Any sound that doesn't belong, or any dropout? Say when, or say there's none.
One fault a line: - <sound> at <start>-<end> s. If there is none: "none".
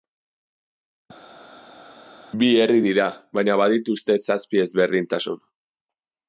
none